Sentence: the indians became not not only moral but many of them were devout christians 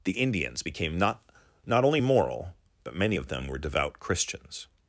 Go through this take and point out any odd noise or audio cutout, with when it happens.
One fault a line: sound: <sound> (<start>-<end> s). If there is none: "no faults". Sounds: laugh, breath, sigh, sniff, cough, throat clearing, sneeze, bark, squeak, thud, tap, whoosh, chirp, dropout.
no faults